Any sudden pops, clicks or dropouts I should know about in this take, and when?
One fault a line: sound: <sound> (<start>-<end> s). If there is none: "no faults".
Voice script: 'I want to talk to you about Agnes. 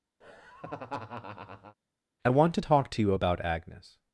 sound: laugh (0.2-1.8 s)